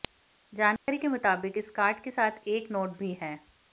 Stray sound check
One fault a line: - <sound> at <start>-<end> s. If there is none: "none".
- dropout at 0.8-0.9 s